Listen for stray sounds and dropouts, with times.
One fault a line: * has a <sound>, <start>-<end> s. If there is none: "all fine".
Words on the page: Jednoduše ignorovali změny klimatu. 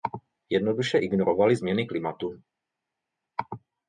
all fine